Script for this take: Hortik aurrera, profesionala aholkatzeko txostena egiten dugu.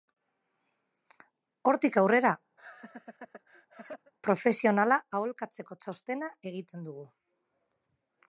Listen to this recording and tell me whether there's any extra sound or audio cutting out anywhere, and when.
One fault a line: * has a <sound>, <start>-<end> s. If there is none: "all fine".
* has a laugh, 2.6-4.1 s